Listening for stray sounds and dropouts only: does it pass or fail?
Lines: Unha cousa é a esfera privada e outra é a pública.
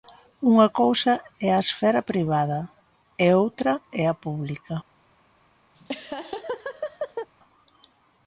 fail